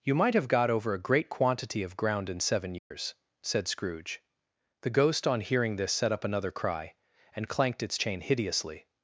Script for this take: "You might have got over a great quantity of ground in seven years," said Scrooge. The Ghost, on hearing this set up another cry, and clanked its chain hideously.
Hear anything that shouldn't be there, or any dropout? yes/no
yes